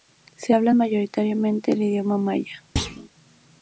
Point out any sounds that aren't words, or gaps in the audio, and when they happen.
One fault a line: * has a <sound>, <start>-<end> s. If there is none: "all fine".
* has a thud, 2.8-3.1 s